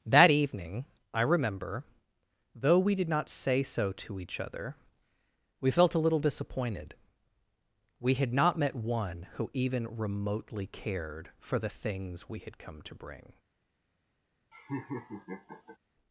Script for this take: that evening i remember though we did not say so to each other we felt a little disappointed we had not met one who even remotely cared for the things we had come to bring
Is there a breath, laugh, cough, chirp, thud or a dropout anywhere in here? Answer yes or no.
yes